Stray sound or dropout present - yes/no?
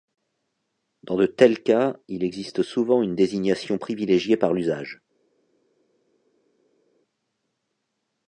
no